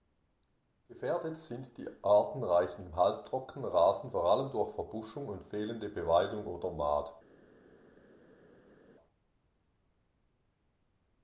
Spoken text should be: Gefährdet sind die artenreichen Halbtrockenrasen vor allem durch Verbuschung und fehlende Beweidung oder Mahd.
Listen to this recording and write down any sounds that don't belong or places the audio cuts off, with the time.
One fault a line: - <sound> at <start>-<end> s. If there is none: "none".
none